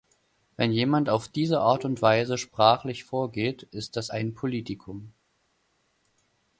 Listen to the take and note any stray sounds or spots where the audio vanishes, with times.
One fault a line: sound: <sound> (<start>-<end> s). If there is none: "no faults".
no faults